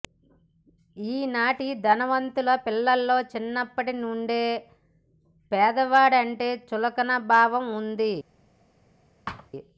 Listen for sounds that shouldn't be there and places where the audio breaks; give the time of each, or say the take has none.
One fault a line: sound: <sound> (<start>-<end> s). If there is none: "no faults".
sound: thud (9.3-9.5 s)